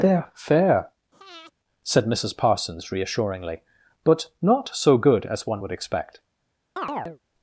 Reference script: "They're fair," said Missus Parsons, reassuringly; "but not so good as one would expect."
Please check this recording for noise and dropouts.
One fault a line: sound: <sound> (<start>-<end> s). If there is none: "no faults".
sound: breath (1.1-1.5 s)
sound: chirp (6.8-7.2 s)